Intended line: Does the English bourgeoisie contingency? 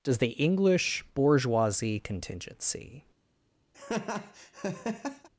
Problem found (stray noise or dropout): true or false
true